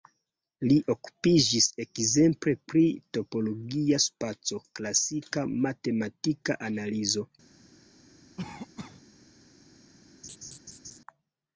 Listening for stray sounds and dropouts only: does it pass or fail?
fail